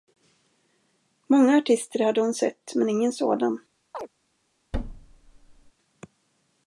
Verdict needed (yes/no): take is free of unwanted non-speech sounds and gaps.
no